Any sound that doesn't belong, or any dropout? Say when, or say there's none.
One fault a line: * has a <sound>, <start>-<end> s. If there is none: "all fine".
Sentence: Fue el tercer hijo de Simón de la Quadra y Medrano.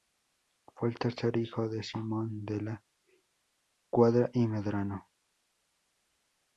all fine